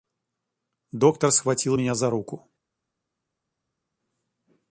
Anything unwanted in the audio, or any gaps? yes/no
no